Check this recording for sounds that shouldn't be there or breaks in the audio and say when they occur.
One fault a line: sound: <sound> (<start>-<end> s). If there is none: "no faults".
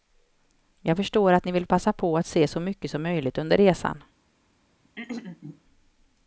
sound: throat clearing (4.8-5.6 s)